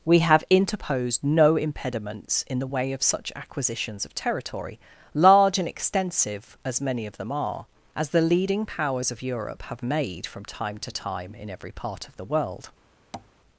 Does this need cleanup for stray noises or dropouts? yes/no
yes